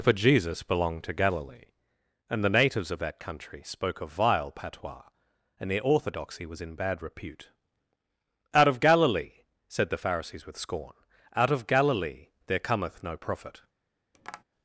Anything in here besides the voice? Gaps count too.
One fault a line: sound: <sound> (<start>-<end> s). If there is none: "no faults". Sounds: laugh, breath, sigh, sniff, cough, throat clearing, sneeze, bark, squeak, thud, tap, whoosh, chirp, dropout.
sound: tap (14.1-14.4 s)